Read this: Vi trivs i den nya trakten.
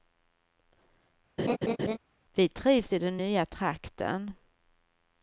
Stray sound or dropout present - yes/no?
yes